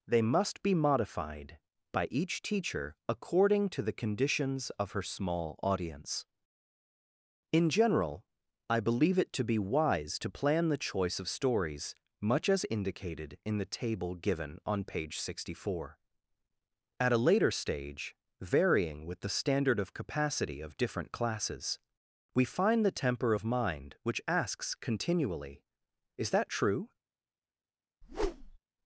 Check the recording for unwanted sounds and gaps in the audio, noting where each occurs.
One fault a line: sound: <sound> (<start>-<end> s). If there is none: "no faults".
sound: whoosh (28.0-28.6 s)